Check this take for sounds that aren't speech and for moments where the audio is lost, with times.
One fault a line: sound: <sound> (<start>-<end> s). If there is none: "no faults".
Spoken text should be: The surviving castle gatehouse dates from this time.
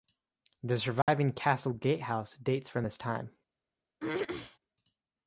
sound: dropout (1.0-1.1 s)
sound: throat clearing (4.0-4.6 s)